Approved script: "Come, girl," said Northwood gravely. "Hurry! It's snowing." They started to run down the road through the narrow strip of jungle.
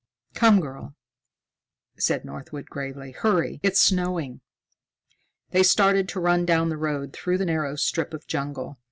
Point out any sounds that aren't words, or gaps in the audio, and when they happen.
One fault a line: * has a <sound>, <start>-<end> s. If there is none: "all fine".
all fine